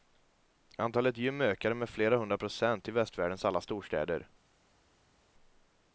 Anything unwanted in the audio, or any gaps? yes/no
no